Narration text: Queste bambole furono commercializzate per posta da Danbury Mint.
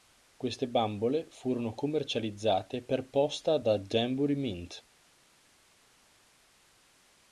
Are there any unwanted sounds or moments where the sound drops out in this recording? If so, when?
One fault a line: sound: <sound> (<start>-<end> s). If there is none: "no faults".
no faults